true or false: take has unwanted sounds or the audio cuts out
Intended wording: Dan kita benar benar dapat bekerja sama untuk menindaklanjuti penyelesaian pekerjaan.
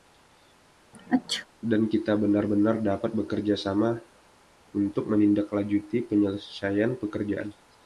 true